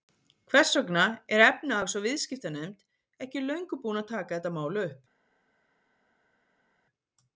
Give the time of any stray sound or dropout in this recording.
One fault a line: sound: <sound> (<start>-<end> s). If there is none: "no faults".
no faults